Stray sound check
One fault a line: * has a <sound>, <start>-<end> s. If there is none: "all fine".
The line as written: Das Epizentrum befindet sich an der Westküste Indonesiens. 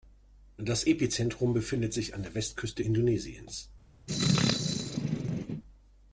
* has a sneeze, 4.1-5.6 s